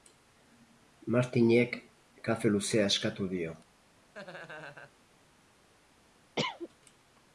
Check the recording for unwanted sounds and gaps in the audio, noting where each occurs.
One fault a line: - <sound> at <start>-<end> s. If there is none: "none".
- laugh at 4.1-5.0 s
- cough at 6.4-6.7 s